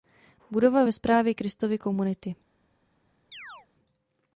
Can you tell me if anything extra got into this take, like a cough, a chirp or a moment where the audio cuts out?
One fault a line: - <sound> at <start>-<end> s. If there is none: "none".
- chirp at 3.3-3.7 s